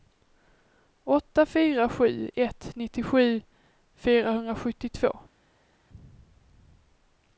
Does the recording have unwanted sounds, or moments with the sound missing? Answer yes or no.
no